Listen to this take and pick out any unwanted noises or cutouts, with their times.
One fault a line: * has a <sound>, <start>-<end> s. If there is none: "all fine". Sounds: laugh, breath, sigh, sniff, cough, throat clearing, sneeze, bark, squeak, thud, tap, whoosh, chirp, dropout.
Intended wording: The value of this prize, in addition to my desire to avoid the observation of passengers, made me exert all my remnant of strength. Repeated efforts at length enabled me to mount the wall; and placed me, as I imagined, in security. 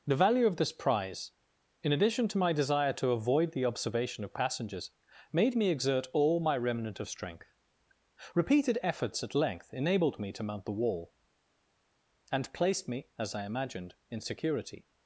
all fine